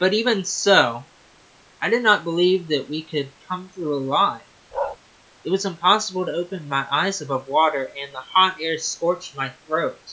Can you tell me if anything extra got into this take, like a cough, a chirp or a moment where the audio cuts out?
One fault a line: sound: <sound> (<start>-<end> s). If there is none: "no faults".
sound: bark (4.7-5.0 s)